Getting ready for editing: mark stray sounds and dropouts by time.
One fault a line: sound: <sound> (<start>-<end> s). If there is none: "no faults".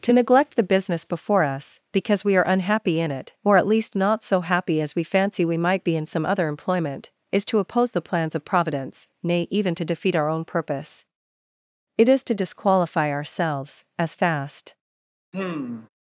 sound: sigh (15.3-15.9 s)